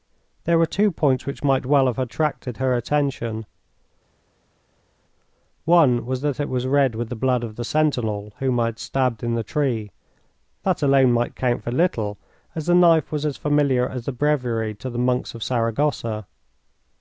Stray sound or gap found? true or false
false